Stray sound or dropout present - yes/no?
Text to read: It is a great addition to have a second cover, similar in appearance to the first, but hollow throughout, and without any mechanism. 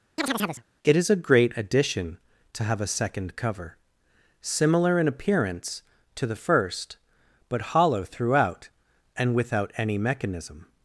yes